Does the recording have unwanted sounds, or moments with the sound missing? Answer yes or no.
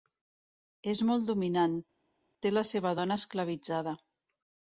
no